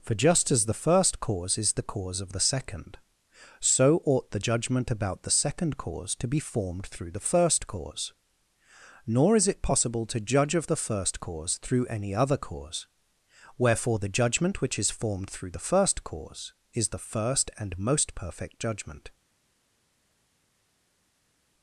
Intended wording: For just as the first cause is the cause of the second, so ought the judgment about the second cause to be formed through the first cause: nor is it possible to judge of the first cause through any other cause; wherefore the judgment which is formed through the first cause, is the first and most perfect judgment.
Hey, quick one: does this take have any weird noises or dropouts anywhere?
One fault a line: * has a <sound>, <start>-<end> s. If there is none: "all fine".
all fine